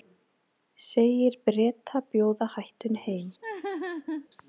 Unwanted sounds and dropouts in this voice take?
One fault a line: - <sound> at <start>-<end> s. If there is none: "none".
- laugh at 3.4-4.3 s